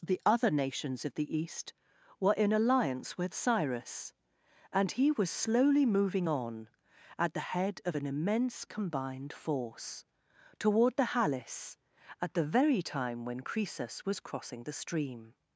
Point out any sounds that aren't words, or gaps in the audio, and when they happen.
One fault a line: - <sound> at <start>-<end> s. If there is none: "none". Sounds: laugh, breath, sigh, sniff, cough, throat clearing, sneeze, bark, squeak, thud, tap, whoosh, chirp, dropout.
none